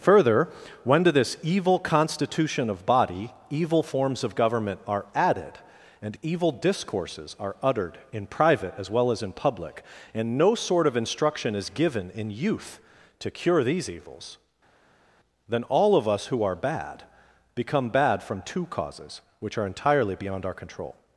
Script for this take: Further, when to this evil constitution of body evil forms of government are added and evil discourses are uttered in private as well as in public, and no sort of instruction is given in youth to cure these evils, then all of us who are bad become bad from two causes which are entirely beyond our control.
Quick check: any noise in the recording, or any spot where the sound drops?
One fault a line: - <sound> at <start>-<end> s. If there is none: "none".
none